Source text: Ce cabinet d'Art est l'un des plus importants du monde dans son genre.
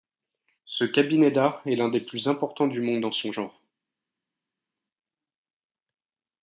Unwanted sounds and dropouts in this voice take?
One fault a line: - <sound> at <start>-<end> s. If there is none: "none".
none